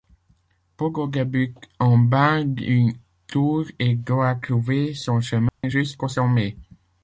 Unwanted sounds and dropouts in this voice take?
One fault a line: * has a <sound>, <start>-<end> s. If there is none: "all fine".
* has a dropout, 5.5-5.6 s